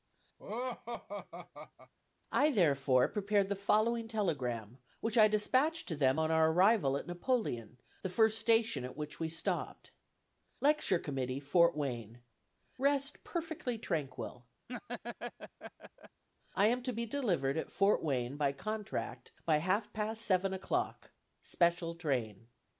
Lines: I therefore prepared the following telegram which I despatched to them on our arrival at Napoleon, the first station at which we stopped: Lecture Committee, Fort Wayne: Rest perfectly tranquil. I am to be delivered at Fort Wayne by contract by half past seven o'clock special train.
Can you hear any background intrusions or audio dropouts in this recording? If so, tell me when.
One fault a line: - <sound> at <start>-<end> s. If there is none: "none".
- laugh at 0.4-1.9 s
- laugh at 14.7-16.2 s